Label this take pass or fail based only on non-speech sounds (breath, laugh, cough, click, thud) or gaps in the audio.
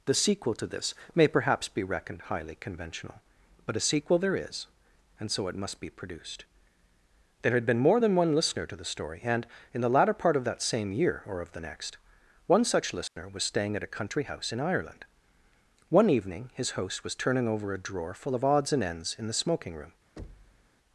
fail